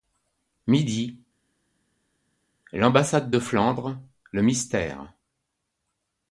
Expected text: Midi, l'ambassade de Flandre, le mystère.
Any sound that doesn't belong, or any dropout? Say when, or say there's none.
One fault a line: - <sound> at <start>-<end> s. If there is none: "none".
none